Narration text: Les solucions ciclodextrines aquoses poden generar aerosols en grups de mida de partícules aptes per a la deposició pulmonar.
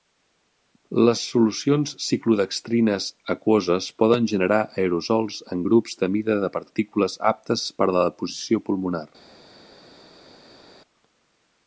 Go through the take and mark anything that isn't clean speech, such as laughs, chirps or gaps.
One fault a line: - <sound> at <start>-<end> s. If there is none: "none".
none